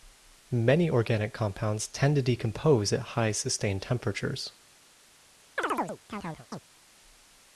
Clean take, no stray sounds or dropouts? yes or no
no